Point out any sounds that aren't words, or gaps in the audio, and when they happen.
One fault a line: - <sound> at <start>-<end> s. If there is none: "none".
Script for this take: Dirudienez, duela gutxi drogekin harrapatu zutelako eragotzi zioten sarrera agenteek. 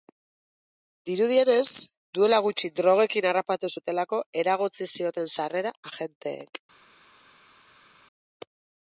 none